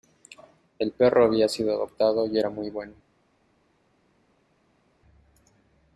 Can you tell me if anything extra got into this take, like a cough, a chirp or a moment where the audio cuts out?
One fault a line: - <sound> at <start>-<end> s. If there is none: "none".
none